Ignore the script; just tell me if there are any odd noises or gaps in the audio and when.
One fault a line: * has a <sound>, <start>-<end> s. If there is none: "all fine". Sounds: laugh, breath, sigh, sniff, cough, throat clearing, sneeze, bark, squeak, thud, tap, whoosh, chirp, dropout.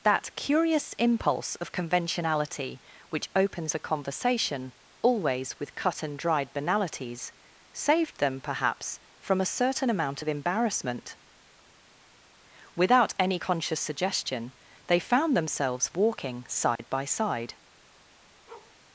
* has a dropout, 16.8-16.8 s
* has a bark, 18.5-18.8 s